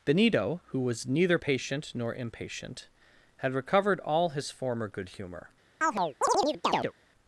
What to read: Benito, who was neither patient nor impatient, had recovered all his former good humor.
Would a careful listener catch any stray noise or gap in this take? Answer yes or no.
yes